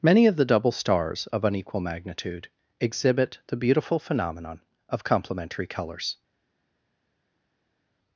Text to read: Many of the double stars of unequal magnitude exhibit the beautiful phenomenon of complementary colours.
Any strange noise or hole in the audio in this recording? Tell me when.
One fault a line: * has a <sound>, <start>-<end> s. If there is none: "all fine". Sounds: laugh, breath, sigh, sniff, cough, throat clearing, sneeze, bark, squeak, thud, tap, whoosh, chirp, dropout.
all fine